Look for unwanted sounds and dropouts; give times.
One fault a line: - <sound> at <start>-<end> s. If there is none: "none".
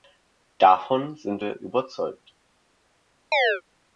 - chirp at 3.3-3.6 s